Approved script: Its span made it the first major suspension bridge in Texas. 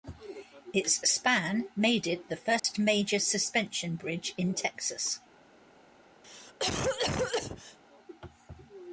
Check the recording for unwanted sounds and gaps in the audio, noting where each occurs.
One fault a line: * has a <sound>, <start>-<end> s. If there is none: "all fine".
* has a dropout, 2.6-2.6 s
* has a cough, 6.2-7.8 s